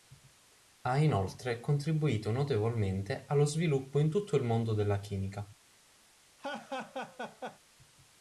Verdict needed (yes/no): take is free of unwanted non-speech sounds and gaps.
no